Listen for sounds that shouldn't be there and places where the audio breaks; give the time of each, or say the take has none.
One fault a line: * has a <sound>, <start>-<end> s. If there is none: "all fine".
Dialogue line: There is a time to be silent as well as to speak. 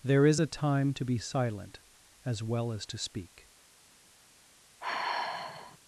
* has a sigh, 4.8-5.8 s